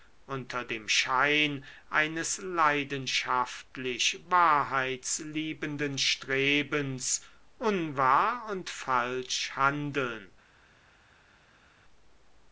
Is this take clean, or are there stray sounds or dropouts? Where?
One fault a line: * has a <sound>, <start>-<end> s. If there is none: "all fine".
all fine